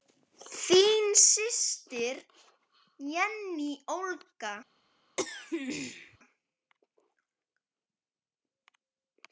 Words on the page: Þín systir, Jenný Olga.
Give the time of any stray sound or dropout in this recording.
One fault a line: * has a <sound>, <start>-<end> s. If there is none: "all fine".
* has a throat clearing, 5.2-6.2 s